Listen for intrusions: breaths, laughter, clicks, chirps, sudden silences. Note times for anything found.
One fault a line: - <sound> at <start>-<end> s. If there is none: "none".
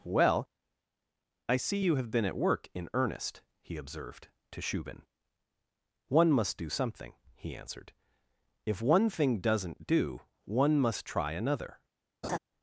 - laugh at 12.2-12.4 s